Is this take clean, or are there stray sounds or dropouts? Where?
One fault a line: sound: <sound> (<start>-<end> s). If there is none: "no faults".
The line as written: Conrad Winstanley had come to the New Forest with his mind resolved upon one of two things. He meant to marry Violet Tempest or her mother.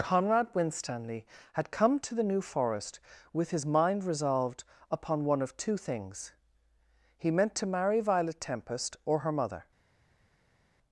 no faults